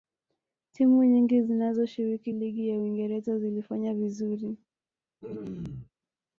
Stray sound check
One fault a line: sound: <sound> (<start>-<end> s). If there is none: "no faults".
sound: throat clearing (5.2-5.9 s)